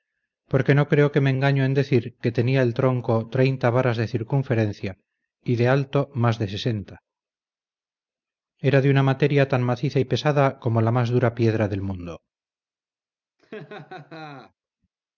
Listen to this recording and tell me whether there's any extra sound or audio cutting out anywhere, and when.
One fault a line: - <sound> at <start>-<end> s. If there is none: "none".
- laugh at 13.4-14.5 s